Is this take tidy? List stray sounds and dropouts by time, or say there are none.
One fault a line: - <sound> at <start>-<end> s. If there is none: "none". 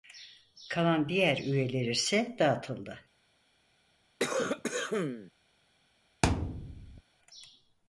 - cough at 4.2-5.3 s
- thud at 6.2-7.0 s